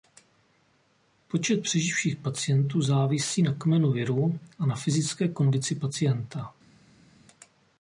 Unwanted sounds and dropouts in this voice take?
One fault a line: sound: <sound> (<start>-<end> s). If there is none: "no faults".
no faults